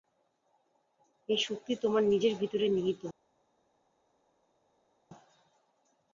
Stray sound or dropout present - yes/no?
no